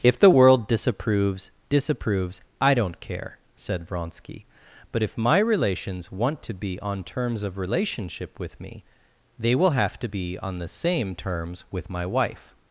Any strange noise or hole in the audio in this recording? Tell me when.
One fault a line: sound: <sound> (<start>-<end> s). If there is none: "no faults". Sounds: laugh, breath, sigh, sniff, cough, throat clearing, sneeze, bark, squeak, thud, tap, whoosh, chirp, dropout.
no faults